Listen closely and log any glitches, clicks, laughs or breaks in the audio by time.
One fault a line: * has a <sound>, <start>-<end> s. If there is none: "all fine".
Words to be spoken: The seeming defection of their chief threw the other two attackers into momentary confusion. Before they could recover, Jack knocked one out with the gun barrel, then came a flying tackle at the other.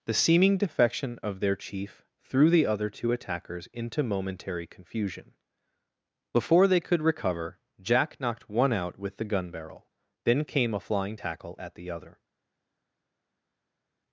all fine